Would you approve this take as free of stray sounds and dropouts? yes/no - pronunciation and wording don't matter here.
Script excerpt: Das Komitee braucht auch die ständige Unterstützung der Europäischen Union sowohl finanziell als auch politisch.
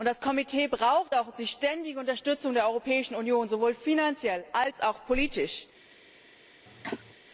no